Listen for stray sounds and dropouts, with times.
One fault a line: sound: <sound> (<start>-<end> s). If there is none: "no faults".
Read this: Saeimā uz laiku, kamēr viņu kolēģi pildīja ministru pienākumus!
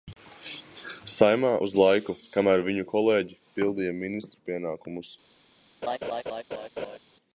sound: laugh (5.8-7.0 s)